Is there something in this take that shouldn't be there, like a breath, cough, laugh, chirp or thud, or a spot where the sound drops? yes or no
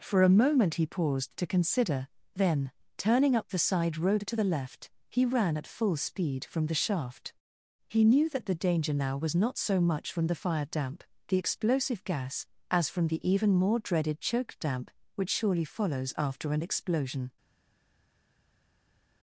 no